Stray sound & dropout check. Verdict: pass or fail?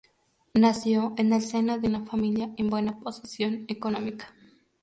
pass